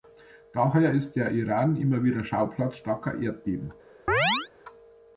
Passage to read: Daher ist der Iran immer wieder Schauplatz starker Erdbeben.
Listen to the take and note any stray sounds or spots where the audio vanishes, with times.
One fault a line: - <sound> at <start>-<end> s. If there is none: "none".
- chirp at 4.1-4.5 s